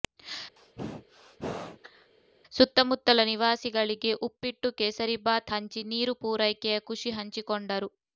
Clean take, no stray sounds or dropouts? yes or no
no